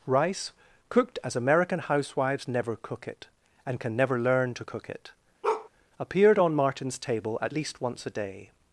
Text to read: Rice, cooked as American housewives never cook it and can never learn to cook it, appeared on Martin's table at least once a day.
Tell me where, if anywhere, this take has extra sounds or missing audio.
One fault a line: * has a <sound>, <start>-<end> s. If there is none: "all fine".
* has a bark, 5.4-5.7 s